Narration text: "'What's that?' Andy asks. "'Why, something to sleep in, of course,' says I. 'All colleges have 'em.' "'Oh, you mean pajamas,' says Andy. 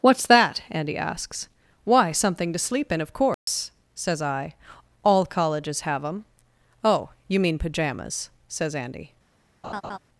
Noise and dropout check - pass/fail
fail